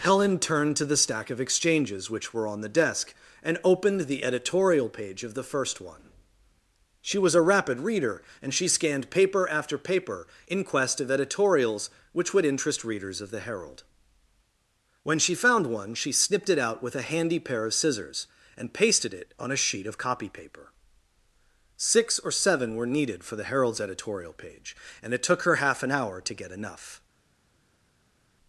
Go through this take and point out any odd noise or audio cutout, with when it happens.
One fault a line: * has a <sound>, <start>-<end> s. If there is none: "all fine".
all fine